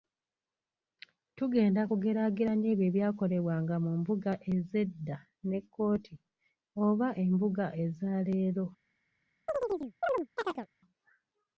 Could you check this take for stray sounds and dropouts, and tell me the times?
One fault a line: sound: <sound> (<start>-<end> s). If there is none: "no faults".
sound: chirp (9.5-10.7 s)